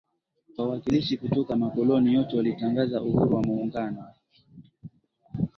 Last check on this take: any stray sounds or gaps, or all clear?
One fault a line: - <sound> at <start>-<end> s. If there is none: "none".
none